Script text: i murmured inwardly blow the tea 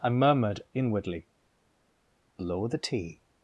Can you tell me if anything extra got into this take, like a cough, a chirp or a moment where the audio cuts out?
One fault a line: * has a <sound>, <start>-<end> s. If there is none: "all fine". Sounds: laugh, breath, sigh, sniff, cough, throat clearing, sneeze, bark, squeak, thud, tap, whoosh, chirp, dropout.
all fine